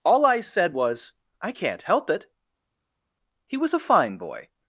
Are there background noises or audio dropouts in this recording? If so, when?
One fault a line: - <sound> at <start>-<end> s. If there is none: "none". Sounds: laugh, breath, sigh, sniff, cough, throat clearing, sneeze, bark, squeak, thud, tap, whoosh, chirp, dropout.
none